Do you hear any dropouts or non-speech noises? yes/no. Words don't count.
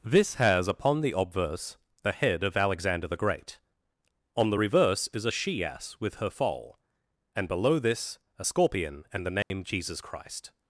yes